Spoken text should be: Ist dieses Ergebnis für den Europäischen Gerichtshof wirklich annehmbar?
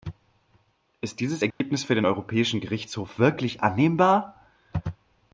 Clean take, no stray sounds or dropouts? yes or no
no